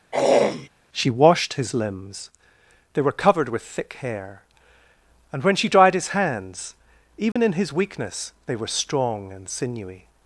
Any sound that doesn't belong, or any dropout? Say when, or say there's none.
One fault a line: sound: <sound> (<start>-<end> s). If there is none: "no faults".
sound: throat clearing (0.1-0.7 s)
sound: dropout (7.3-7.4 s)